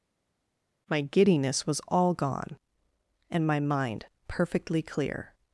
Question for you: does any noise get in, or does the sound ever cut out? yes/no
no